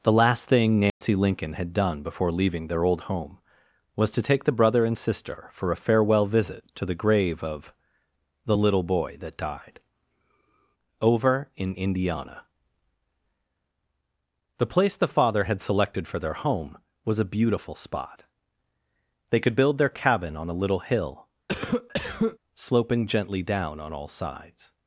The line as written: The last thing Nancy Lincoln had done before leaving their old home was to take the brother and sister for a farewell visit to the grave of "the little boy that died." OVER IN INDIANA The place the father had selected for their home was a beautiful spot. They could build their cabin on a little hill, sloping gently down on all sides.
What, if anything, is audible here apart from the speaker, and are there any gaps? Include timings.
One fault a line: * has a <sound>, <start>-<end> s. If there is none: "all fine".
* has a dropout, 0.9-1.0 s
* has a cough, 21.5-22.4 s